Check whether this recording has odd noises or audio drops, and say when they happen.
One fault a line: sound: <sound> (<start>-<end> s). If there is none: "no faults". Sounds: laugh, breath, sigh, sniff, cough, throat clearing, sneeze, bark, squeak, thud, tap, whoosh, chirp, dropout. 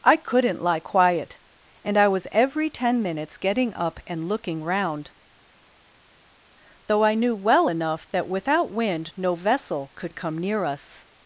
no faults